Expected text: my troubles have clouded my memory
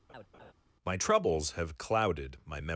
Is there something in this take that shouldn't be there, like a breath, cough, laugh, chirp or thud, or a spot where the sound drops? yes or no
yes